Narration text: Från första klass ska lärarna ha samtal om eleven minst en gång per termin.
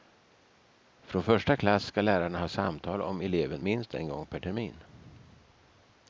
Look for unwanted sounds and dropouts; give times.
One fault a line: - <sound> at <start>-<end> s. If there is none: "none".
none